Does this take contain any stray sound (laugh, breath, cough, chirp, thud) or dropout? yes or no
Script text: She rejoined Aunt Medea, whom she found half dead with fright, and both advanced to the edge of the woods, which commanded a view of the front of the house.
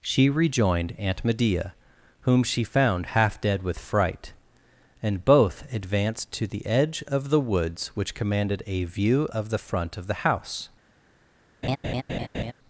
yes